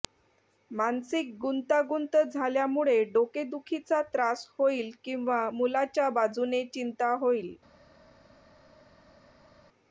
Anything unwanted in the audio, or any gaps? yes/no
no